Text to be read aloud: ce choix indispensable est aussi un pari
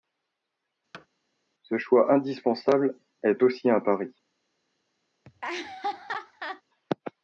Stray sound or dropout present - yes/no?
yes